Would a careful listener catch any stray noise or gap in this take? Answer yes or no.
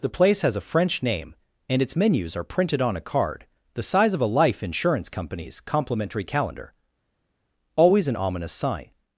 no